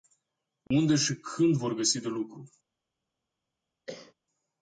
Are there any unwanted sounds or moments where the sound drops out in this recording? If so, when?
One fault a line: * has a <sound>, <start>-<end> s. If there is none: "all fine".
* has a dropout, 0.7-0.7 s
* has a cough, 3.9-4.1 s